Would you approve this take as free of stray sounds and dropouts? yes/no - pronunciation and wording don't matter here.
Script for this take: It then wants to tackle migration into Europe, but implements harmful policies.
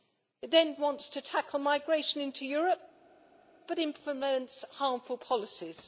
yes